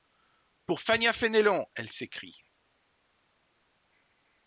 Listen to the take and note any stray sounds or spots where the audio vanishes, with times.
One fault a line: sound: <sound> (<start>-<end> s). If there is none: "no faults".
no faults